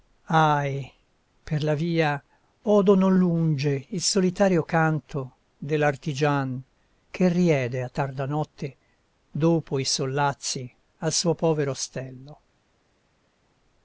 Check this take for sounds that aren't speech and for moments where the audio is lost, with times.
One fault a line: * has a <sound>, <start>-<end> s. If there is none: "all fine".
all fine